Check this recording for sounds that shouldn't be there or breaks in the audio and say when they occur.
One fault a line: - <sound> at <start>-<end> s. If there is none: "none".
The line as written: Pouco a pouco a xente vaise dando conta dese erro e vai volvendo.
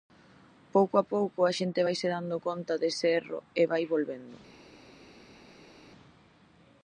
none